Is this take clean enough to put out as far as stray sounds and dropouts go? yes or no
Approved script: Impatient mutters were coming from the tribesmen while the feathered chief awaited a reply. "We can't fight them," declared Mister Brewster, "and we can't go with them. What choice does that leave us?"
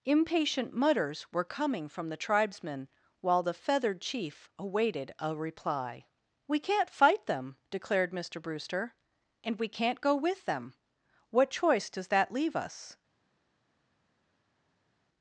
yes